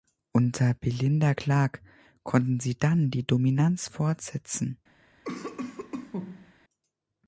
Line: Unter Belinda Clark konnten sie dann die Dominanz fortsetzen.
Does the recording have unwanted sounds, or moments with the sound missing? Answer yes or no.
yes